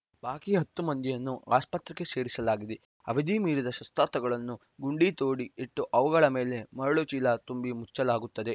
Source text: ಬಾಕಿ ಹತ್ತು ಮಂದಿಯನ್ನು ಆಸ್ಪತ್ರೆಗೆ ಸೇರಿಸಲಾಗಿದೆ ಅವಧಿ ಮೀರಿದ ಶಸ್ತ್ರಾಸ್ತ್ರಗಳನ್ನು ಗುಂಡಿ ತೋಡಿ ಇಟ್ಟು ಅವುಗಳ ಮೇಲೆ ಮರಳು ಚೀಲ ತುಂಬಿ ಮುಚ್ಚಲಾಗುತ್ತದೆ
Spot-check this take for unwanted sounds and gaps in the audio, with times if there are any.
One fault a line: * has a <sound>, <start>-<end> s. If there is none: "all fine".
all fine